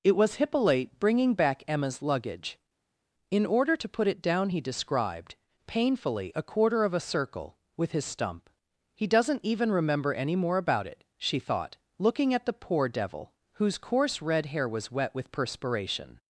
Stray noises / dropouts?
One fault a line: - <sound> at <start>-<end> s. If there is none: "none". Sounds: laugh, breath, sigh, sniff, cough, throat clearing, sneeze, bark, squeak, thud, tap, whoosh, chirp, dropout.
none